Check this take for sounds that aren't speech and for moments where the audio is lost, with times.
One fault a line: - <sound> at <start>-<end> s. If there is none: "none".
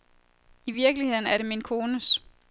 none